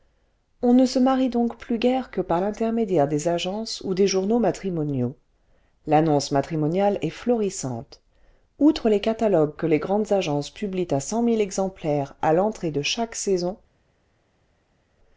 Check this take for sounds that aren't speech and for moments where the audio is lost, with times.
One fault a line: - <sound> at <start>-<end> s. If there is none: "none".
none